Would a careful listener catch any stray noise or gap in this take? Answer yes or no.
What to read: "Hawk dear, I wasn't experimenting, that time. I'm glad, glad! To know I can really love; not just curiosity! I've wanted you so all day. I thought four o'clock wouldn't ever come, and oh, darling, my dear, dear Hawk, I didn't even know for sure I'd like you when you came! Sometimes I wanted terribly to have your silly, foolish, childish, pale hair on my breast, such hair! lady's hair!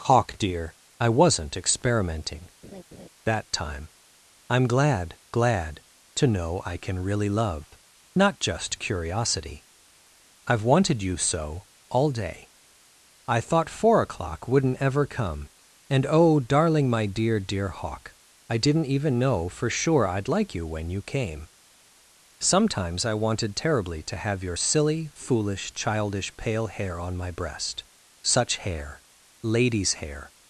yes